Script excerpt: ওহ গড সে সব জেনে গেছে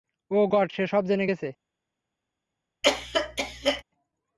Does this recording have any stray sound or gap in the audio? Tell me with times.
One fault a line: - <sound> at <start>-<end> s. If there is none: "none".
- cough at 2.8-3.8 s